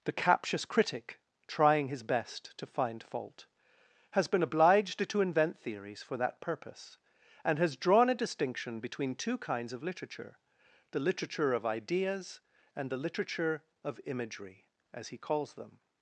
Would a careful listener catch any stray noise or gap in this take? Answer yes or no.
no